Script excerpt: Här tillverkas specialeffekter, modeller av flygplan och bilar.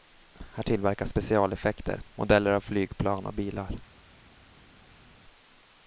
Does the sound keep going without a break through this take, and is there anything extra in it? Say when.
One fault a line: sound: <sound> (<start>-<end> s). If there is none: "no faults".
no faults